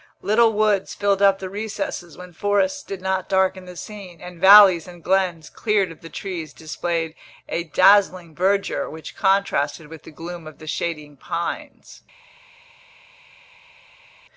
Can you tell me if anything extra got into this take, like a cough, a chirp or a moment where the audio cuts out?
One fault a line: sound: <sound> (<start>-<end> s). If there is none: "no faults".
no faults